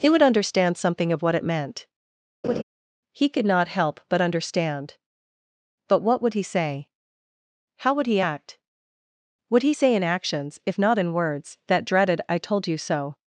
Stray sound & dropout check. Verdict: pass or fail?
fail